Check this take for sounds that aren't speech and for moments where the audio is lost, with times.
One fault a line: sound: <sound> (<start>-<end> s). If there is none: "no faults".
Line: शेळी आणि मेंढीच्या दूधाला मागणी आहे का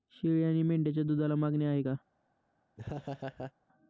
sound: laugh (2.8-3.5 s)